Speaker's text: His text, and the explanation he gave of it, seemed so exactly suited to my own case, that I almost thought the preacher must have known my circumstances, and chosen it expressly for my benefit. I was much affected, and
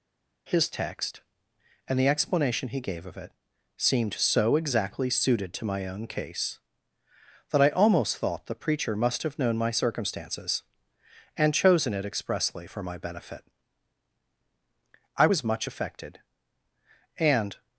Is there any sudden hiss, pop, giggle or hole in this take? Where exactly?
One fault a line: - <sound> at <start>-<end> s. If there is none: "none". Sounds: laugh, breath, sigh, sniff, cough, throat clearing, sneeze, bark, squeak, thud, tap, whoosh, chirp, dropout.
none